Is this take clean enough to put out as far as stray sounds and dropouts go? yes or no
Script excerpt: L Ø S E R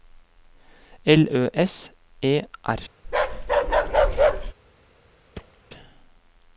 no